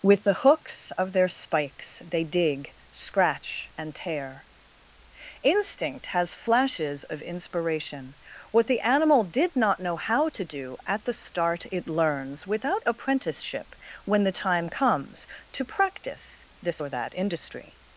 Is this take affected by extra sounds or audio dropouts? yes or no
no